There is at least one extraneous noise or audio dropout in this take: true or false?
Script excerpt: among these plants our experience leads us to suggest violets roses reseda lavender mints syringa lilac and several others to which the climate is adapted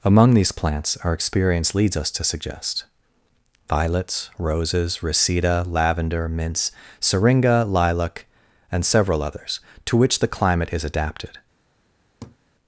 true